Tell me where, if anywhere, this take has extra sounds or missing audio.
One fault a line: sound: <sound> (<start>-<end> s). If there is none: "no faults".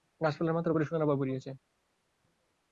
no faults